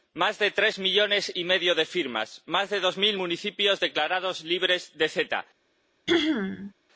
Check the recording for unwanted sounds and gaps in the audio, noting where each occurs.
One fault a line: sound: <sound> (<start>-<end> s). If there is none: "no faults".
sound: throat clearing (6.1-6.7 s)